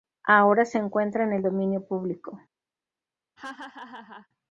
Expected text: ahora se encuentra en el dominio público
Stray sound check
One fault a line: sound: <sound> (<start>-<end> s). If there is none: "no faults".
sound: laugh (3.4-4.3 s)